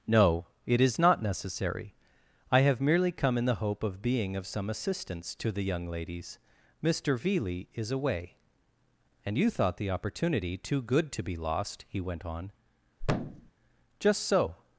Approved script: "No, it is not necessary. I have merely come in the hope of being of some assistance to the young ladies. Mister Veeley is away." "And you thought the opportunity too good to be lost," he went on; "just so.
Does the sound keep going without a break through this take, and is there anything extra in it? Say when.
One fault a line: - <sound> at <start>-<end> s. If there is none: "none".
- thud at 13.0-13.5 s